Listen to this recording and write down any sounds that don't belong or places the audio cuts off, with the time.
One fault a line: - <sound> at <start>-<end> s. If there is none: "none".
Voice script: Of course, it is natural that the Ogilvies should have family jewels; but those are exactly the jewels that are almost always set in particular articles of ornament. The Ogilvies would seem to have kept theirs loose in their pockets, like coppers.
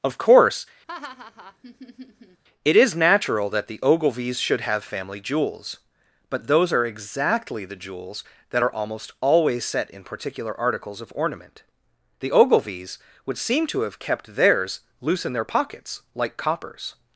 - laugh at 0.9-2.4 s